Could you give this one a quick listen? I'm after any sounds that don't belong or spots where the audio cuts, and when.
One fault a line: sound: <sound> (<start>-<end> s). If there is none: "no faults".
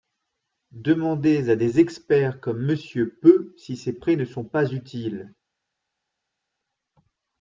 no faults